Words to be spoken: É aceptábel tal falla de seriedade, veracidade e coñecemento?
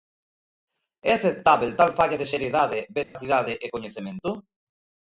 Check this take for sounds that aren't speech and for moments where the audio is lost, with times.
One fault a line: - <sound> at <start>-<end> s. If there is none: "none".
- dropout at 3.0-3.2 s